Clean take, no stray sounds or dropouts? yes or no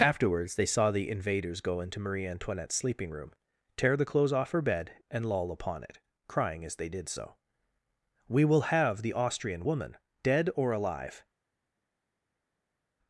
yes